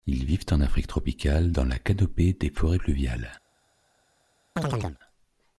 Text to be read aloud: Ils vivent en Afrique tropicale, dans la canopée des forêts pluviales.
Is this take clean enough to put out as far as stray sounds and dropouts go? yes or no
no